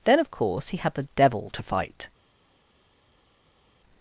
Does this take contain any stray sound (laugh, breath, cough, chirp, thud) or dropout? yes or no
no